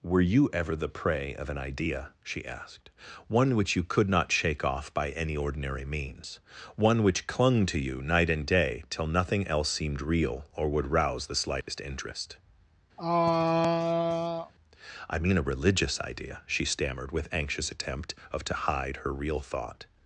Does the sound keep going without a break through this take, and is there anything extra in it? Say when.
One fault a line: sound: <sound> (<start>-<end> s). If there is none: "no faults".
sound: dropout (11.6-11.7 s)
sound: throat clearing (13.0-14.5 s)